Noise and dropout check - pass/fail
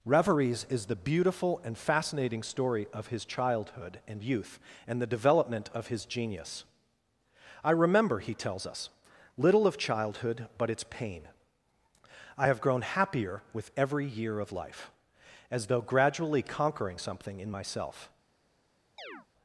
fail